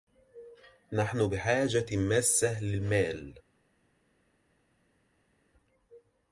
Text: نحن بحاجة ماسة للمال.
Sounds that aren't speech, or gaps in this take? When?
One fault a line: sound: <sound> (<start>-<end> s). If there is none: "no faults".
no faults